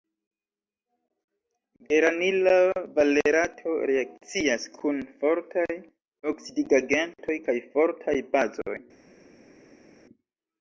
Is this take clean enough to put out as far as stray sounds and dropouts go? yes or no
yes